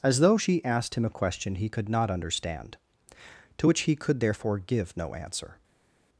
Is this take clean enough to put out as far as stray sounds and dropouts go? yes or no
yes